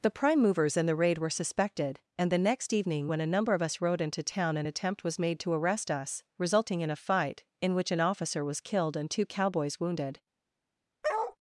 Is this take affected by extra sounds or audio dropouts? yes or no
yes